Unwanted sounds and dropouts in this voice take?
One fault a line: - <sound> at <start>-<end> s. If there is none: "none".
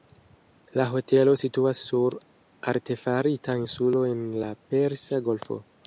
none